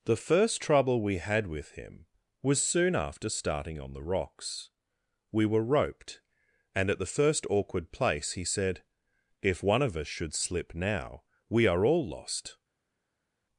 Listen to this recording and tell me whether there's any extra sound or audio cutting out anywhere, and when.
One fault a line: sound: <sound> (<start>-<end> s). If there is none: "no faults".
no faults